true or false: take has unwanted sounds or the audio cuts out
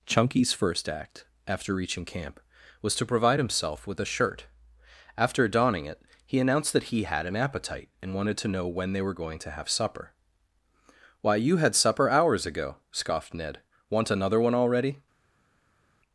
false